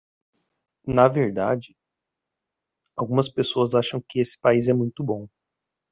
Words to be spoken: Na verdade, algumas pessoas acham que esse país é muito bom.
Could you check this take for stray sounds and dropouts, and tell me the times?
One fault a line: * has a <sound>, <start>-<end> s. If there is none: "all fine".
all fine